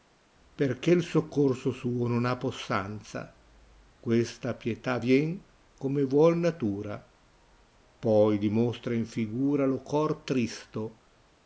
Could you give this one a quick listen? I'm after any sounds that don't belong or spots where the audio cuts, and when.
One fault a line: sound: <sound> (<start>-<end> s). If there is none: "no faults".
no faults